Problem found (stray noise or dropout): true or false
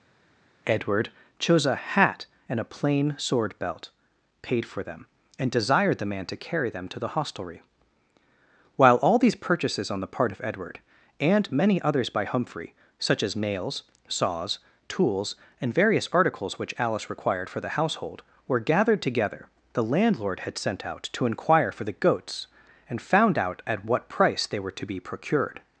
false